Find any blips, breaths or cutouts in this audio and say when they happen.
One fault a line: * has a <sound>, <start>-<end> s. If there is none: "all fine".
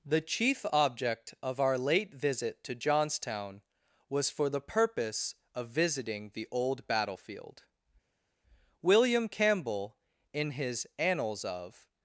all fine